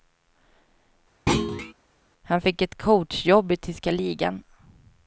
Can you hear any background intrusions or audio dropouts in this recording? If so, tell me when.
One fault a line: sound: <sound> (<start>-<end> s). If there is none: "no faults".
sound: thud (1.3-1.7 s)